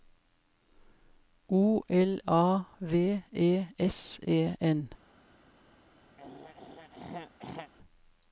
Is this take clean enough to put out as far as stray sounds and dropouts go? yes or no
no